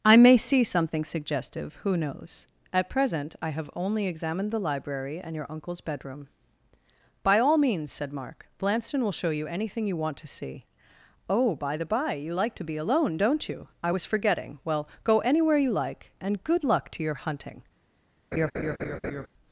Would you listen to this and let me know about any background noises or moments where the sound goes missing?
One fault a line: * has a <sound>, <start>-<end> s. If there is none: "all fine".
* has a laugh, 18.3-19.3 s